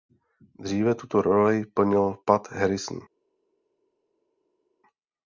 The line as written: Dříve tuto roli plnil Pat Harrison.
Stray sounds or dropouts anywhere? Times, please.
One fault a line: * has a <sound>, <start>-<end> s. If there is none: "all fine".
all fine